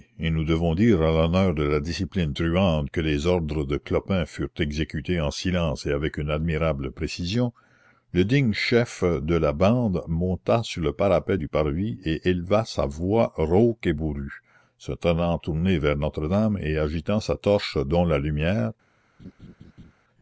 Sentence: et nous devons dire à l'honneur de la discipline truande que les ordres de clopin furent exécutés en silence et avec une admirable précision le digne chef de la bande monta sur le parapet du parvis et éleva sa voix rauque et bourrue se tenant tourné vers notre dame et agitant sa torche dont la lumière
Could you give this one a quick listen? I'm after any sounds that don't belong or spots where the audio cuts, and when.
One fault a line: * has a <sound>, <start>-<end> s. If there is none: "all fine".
* has a laugh, 19.2-19.9 s